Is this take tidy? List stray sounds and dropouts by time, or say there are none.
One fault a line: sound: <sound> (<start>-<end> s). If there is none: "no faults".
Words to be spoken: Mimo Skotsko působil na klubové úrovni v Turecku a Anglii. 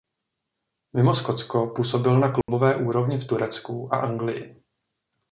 sound: dropout (2.4-2.5 s)